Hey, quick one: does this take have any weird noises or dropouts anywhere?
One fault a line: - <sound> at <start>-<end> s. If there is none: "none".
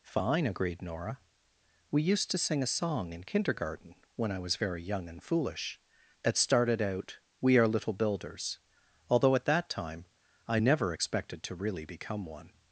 none